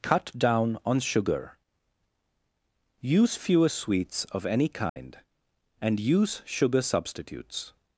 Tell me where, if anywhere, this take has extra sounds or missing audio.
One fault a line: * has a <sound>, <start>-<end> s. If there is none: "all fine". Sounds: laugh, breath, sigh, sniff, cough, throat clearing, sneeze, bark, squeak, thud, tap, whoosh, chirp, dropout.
* has a dropout, 4.9-5.0 s